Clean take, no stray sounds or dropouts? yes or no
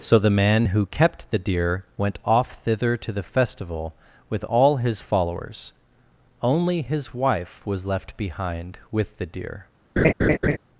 no